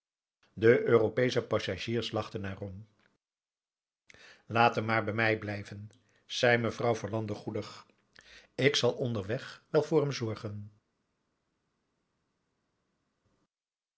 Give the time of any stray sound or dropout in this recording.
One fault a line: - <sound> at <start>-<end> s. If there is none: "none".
none